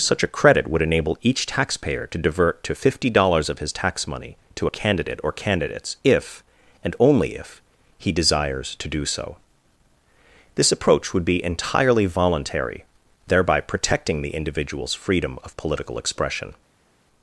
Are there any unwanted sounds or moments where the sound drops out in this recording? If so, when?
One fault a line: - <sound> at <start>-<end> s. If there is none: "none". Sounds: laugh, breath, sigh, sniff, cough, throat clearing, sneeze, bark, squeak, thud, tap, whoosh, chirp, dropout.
none